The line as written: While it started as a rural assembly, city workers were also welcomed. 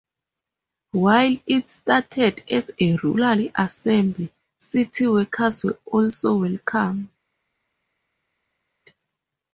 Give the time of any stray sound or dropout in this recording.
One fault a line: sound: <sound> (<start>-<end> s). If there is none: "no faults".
no faults